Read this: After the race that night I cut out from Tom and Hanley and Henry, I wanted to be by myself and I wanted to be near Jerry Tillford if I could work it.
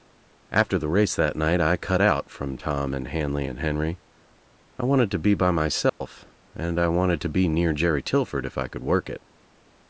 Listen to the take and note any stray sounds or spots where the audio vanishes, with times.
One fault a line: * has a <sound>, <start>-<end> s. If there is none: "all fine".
* has a dropout, 5.9-6.0 s